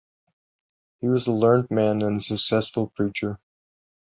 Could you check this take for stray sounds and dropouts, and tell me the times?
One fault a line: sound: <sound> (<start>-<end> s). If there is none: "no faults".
no faults